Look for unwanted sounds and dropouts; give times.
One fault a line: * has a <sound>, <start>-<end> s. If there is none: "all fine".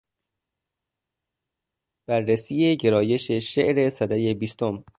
all fine